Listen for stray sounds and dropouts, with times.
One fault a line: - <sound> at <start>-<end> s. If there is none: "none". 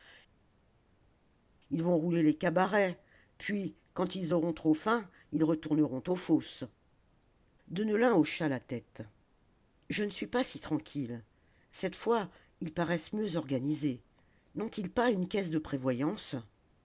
none